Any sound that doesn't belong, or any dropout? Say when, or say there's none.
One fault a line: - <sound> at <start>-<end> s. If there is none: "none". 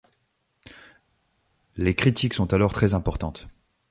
none